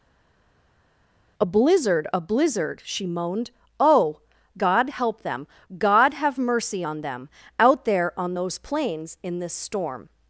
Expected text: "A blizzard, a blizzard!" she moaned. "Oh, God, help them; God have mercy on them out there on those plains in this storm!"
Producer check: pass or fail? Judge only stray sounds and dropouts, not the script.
pass